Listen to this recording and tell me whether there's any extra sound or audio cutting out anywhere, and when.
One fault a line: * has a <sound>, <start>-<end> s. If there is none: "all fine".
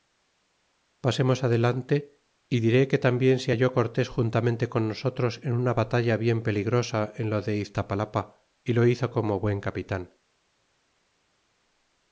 all fine